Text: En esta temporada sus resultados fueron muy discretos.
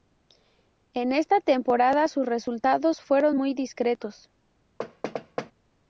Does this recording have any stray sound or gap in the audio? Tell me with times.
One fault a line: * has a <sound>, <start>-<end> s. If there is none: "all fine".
* has a thud, 4.8-5.5 s